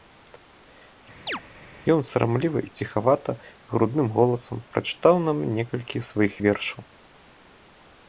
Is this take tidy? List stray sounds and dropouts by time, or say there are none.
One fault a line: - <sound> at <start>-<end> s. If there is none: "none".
- chirp at 1.3-1.4 s